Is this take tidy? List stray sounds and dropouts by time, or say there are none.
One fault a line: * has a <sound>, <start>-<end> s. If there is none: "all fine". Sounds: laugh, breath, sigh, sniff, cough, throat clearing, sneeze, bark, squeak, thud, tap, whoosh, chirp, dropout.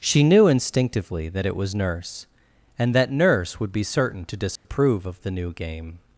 * has a dropout, 4.6-4.7 s